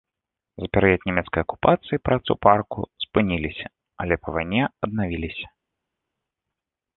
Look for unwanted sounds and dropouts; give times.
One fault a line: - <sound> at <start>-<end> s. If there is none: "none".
none